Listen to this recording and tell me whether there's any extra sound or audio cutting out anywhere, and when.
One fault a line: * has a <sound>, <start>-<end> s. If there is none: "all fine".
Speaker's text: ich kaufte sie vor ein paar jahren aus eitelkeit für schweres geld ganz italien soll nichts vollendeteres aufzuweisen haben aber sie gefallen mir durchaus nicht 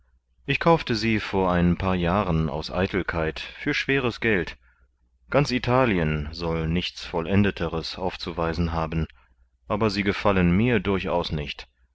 all fine